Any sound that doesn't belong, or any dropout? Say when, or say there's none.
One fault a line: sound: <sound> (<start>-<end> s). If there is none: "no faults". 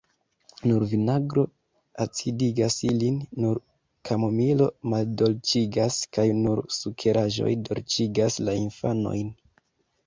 no faults